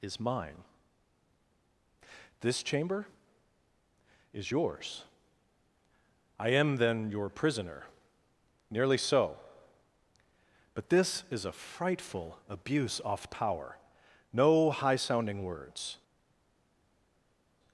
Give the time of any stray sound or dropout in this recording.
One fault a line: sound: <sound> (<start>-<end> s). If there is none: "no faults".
no faults